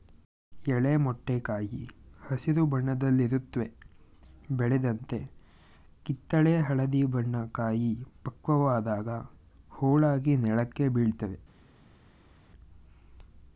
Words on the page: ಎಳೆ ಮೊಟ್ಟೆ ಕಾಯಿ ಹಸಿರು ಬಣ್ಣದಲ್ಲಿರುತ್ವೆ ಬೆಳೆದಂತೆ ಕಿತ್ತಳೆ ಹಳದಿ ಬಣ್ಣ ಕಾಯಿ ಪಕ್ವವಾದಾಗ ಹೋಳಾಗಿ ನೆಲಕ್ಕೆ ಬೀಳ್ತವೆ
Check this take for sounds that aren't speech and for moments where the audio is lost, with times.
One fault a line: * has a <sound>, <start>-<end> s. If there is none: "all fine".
all fine